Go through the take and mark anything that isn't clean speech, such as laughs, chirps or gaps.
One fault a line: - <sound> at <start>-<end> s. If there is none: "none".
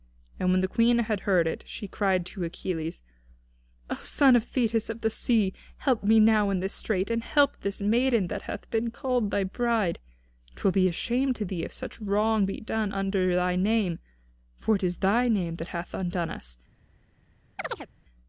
- chirp at 17.6-17.9 s